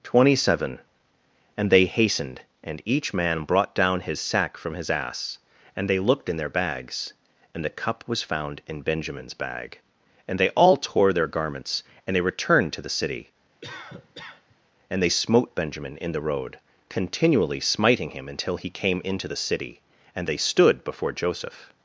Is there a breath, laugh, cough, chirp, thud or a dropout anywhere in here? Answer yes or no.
yes